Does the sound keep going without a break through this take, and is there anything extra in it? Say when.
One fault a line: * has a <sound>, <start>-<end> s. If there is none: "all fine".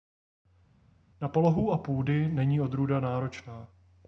all fine